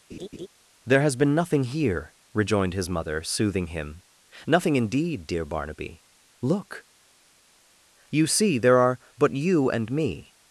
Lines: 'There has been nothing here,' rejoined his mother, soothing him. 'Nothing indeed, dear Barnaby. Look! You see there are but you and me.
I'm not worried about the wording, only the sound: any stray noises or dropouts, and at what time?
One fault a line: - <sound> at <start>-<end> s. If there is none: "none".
- laugh at 0.1-0.5 s